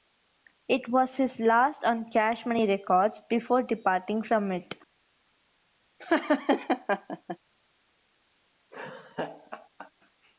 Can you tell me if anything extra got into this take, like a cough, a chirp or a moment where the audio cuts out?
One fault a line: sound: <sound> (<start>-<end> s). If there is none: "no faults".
sound: laugh (6.0-7.4 s)
sound: laugh (8.7-9.9 s)